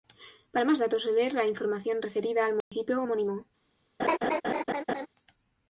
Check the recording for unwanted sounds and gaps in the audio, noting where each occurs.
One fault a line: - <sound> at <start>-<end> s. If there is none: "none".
- dropout at 2.6-2.7 s
- laugh at 4.0-5.1 s